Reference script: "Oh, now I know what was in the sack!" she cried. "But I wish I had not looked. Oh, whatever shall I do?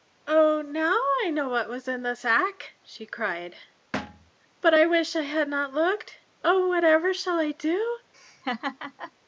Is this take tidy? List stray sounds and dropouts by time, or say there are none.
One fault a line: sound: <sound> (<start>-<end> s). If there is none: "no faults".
sound: thud (3.9-4.3 s)
sound: laugh (8.1-9.1 s)